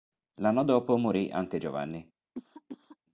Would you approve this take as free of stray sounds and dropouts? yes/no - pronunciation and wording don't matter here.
no